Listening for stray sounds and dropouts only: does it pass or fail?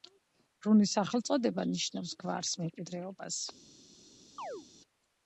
fail